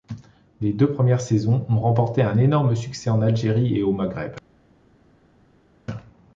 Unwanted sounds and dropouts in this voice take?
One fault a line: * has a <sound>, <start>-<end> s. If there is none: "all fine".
all fine